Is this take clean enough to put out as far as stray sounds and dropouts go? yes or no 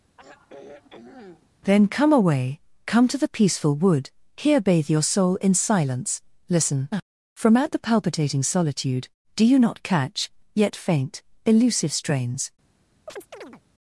no